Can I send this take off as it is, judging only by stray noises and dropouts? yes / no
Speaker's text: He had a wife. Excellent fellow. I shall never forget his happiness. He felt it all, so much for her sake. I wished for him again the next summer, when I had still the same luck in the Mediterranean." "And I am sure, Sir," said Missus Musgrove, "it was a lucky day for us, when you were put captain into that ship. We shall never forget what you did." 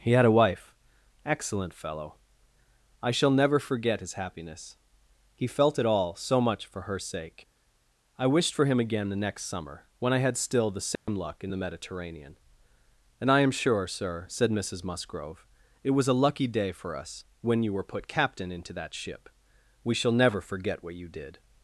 no